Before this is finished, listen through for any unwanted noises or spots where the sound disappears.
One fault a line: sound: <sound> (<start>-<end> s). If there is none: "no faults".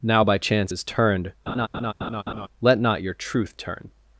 sound: laugh (1.5-2.5 s)